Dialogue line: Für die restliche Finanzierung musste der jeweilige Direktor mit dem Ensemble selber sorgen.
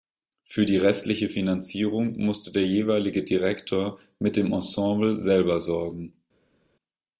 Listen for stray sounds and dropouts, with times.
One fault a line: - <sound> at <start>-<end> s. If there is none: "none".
none